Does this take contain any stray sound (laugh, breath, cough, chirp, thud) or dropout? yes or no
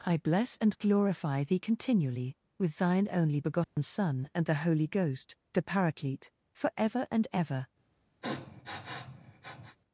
yes